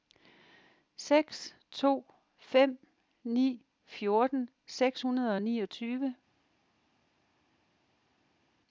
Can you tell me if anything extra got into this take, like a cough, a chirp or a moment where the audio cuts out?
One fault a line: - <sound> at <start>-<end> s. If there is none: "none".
none